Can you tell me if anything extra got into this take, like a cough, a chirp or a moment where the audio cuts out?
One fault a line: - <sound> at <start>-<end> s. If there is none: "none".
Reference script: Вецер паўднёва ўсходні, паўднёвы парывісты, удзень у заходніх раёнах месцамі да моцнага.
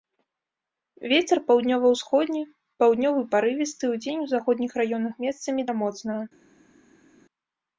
none